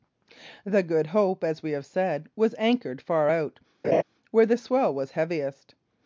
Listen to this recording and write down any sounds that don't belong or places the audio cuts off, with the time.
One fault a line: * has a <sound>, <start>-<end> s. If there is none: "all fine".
* has a laugh, 3.8-4.0 s